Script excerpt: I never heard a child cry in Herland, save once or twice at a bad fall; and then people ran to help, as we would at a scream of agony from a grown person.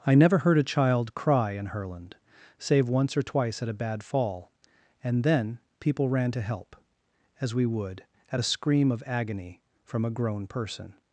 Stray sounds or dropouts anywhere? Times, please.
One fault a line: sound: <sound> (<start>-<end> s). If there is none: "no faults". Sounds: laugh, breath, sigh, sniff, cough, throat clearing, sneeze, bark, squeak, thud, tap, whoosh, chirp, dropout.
no faults